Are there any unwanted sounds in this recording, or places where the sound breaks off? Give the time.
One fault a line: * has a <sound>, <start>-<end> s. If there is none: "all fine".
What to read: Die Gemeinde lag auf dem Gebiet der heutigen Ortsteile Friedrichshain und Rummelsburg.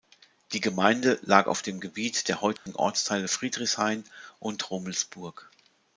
* has a dropout, 2.6-2.7 s